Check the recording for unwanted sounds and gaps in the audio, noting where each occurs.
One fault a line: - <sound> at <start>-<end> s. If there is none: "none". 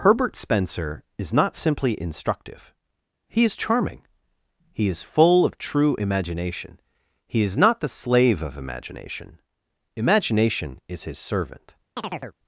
- chirp at 12.0-12.4 s